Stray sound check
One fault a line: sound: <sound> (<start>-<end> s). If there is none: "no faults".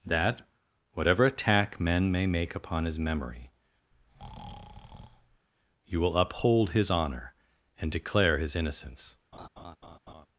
sound: breath (3.9-5.5 s)
sound: laugh (9.3-10.3 s)